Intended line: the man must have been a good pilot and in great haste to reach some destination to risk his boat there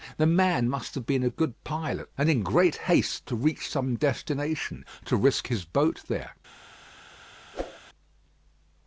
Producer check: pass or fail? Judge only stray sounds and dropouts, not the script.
fail